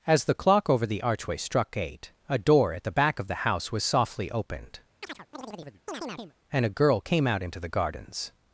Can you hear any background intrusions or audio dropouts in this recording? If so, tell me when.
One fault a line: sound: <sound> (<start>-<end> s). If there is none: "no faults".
sound: chirp (5.0-6.3 s)